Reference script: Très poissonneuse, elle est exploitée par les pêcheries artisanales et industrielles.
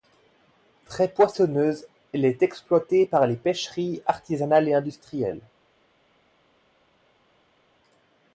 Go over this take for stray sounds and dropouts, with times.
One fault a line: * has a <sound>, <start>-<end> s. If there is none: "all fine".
all fine